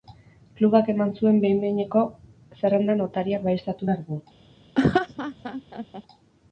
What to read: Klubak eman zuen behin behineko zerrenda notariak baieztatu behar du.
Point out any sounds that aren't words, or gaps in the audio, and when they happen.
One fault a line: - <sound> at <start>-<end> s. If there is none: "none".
- laugh at 4.8-6.0 s